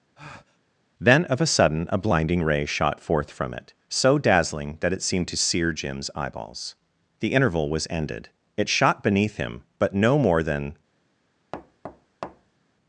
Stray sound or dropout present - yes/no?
yes